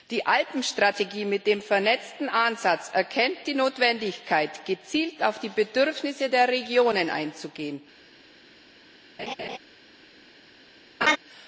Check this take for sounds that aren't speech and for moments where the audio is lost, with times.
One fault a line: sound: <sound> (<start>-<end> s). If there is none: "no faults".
sound: laugh (9.2-9.6 s)
sound: laugh (11.0-11.2 s)